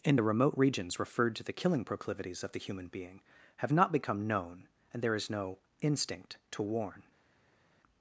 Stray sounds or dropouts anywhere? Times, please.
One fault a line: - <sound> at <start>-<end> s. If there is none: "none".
none